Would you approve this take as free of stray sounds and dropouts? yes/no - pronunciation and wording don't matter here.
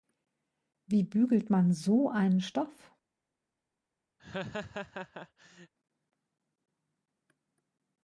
no